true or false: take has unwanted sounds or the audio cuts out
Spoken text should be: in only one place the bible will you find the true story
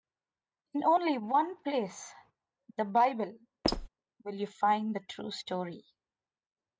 true